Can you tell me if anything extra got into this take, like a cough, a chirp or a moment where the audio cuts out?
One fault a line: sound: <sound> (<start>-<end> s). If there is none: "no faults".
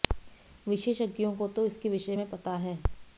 no faults